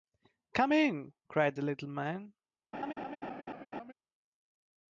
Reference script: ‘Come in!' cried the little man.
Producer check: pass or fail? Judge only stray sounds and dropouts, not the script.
fail